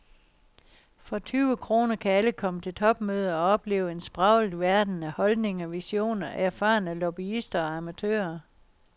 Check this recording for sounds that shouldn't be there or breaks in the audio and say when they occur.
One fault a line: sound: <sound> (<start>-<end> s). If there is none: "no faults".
no faults